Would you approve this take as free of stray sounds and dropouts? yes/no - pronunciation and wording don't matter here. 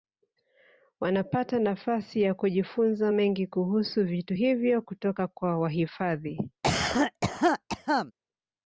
no